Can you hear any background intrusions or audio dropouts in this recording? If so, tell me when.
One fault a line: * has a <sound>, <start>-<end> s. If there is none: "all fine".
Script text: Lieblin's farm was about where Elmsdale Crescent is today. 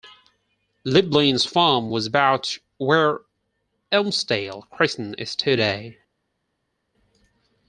all fine